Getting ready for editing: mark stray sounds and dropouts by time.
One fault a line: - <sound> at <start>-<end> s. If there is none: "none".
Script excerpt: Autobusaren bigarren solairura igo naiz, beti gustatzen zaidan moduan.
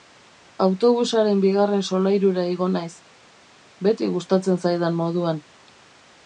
none